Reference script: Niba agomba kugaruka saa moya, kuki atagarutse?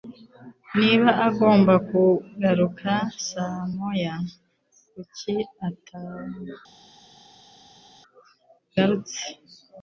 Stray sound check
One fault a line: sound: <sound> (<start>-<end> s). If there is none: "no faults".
no faults